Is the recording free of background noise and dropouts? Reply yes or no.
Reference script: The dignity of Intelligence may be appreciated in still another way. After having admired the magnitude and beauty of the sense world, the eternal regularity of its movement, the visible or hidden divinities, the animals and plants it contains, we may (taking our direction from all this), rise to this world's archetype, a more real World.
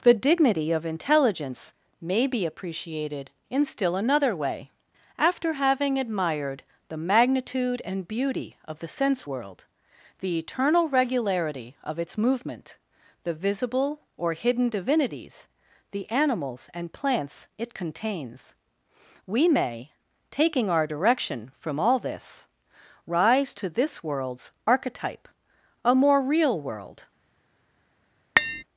no